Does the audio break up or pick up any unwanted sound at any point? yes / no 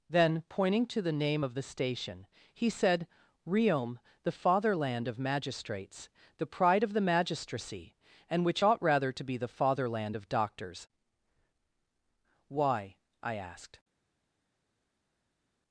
no